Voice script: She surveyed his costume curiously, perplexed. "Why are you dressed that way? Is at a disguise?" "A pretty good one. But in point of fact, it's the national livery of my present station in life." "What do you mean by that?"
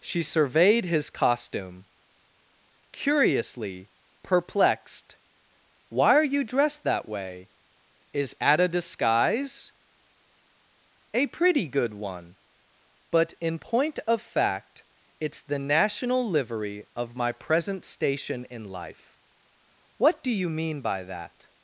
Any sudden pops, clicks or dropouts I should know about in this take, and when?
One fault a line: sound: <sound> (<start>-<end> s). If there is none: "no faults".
no faults